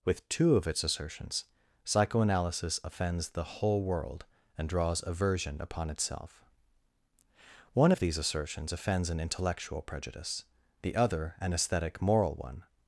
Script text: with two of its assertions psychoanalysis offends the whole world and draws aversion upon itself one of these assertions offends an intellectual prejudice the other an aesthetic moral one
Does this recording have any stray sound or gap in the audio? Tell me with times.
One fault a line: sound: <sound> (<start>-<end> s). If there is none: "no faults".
no faults